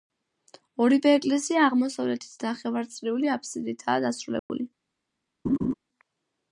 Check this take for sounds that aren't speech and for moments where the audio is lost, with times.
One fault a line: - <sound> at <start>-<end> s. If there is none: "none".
- dropout at 4.4-4.5 s
- laugh at 5.4-5.7 s